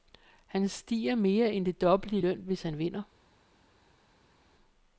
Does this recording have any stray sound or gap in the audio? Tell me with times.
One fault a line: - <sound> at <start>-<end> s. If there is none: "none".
none